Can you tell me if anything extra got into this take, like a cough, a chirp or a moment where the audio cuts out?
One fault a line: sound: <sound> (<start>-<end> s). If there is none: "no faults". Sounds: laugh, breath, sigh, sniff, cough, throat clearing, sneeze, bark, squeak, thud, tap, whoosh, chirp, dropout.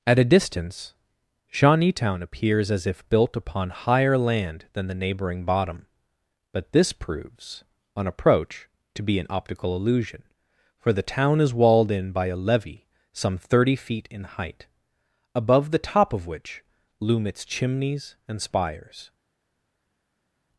no faults